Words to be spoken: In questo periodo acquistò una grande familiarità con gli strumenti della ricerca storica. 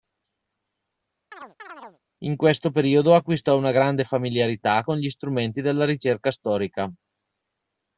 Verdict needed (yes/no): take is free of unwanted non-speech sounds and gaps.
no